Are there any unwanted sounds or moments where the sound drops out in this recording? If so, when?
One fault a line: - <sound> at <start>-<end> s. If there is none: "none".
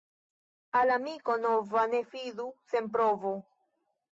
none